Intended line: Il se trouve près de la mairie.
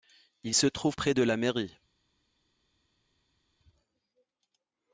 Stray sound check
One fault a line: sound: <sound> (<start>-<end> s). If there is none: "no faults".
no faults